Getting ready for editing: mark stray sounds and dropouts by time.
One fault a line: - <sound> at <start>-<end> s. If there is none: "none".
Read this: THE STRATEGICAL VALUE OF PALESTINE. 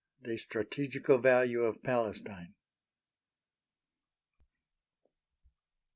none